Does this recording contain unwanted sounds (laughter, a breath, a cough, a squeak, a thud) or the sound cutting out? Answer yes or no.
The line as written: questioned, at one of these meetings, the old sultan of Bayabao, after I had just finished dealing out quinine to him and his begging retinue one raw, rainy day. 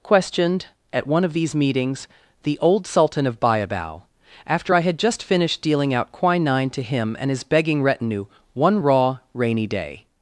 no